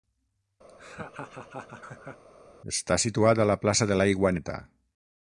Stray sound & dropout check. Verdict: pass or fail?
fail